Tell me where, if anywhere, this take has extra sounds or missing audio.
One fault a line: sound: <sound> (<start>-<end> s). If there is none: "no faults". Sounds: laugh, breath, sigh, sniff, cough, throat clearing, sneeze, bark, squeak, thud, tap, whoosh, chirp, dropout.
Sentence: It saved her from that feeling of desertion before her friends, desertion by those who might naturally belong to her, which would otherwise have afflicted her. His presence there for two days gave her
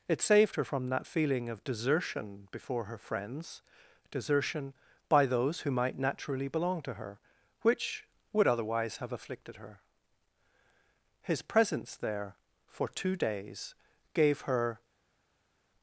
no faults